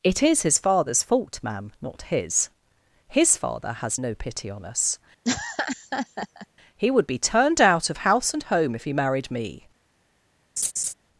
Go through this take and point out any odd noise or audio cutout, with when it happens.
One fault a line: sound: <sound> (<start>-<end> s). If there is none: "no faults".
sound: laugh (5.2-6.5 s)
sound: laugh (10.6-10.9 s)